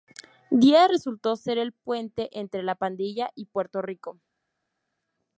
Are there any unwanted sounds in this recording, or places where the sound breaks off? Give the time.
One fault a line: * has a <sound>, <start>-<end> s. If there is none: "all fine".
all fine